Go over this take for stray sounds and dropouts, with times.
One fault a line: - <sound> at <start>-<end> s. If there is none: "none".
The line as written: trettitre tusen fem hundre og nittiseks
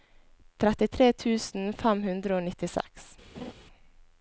- laugh at 3.3-3.5 s